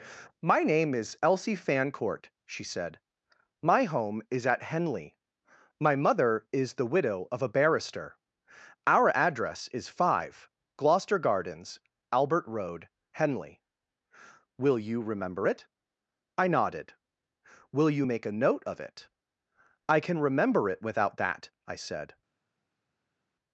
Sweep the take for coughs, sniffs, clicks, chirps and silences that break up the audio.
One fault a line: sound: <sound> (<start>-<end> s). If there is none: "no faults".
no faults